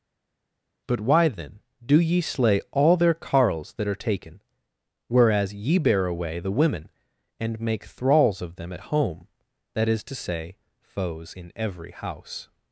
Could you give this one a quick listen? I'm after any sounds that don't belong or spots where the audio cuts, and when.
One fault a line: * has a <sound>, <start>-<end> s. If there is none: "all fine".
all fine